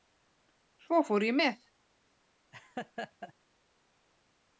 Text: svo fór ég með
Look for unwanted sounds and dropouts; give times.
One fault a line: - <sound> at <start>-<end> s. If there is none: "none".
- laugh at 2.5-3.3 s